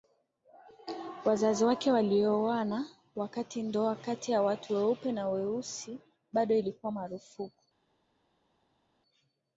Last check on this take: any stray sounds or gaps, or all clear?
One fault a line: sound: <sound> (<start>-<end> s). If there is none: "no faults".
no faults